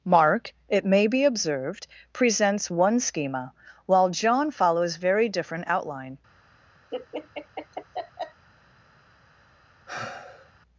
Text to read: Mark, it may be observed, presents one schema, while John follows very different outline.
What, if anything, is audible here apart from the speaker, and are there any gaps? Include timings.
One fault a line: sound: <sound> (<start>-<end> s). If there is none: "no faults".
sound: laugh (6.9-8.5 s)
sound: sigh (9.9-10.5 s)